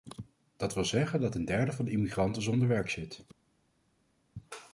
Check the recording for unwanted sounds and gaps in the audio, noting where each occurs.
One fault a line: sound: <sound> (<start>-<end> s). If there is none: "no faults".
no faults